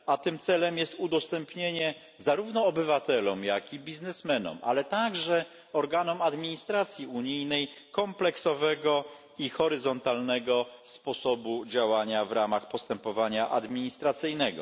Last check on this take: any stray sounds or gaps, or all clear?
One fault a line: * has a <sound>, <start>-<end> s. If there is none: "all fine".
all fine